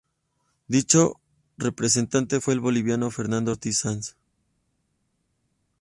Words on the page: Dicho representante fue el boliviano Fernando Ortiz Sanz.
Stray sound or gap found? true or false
false